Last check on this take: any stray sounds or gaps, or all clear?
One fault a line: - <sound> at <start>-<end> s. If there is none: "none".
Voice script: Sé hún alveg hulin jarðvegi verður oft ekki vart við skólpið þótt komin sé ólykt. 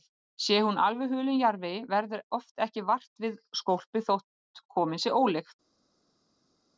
none